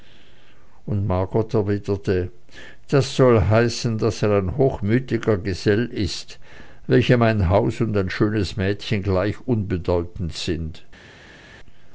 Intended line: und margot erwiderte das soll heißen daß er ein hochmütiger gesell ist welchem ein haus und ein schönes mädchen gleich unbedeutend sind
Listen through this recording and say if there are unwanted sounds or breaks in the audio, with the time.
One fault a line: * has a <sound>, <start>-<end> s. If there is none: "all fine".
all fine